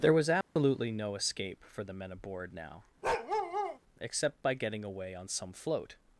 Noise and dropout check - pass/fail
fail